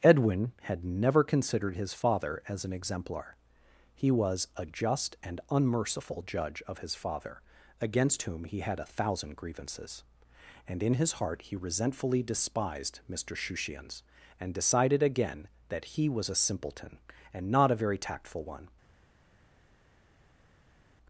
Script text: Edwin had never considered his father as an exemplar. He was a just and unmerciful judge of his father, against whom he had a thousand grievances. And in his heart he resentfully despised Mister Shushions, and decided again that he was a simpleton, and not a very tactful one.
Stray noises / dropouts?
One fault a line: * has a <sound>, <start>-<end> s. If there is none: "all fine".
all fine